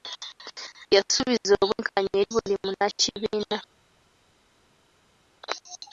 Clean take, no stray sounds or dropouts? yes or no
yes